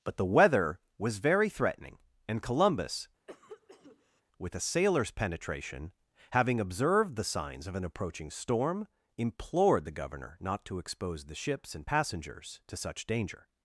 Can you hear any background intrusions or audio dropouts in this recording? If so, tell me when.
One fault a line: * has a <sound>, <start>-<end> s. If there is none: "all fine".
* has a cough, 3.3-4.2 s